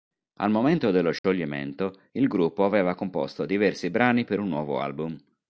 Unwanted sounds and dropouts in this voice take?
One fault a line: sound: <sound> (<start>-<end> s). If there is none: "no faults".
sound: dropout (1.2-1.2 s)